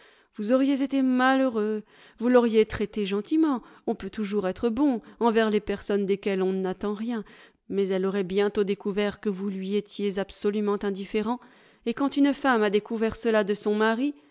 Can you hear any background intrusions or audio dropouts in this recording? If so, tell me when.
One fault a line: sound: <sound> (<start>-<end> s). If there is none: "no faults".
no faults